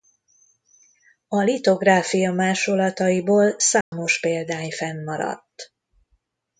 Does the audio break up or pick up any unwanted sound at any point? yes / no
yes